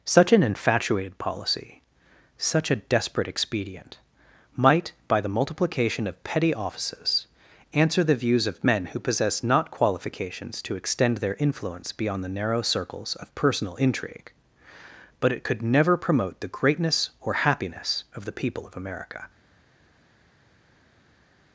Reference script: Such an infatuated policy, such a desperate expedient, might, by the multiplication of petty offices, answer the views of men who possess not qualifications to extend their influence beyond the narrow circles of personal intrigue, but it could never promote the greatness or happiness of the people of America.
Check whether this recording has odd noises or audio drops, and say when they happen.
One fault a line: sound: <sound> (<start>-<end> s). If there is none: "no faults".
no faults